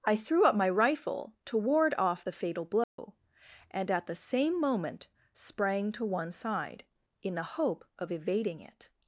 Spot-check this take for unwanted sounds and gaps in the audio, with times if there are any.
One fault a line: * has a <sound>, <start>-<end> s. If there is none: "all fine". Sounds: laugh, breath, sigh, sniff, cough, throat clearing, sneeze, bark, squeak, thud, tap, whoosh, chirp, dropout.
* has a dropout, 2.8-3.0 s